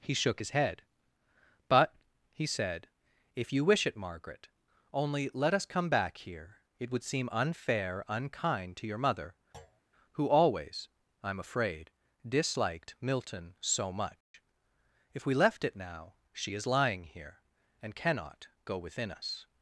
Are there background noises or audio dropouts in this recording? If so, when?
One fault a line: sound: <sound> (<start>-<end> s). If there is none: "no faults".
sound: thud (9.5-9.8 s)
sound: dropout (14.2-14.3 s)